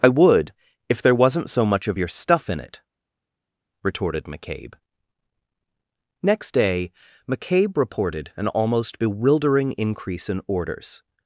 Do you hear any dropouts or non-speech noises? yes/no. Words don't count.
no